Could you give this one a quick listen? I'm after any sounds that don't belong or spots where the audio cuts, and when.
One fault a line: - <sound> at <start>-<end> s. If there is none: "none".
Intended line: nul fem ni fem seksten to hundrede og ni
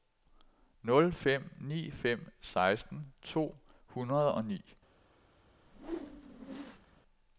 - whoosh at 5.6-7.0 s